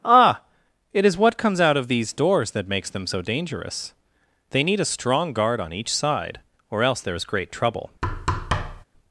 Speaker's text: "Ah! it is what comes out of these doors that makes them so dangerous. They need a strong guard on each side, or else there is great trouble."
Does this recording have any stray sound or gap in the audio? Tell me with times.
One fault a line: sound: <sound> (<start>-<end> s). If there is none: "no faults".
sound: thud (8.0-8.8 s)